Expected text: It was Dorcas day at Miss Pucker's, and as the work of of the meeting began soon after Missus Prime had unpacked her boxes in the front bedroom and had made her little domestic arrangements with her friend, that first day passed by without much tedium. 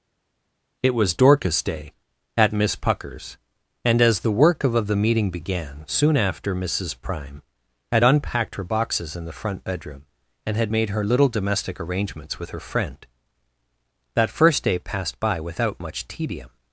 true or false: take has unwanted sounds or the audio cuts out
false